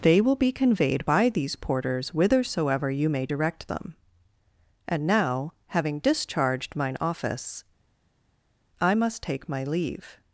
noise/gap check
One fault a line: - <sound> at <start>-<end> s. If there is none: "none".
none